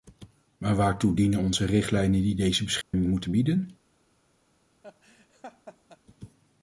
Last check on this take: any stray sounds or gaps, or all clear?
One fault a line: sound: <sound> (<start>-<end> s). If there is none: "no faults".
sound: dropout (2.8-2.9 s)
sound: laugh (4.8-6.0 s)